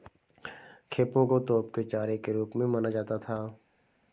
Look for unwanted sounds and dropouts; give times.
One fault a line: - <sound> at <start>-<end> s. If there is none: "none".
none